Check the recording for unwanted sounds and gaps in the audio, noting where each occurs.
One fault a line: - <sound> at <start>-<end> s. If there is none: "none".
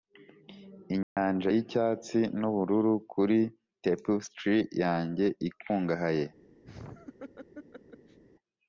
- dropout at 1.0-1.2 s
- laugh at 6.6-8.2 s